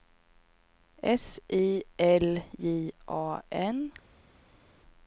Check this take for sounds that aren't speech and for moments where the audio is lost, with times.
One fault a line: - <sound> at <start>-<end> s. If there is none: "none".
none